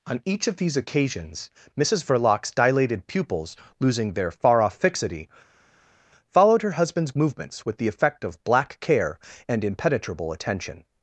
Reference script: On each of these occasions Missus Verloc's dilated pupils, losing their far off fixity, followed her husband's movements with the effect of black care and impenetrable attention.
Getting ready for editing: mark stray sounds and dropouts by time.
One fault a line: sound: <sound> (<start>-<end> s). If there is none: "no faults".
no faults